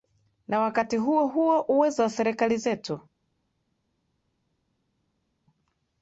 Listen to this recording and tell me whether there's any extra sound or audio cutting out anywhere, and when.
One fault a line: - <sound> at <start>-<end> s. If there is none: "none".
none